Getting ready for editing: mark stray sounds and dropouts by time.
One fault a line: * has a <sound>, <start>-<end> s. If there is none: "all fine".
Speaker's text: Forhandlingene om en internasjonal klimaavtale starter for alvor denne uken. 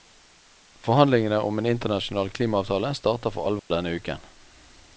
* has a dropout, 3.6-3.7 s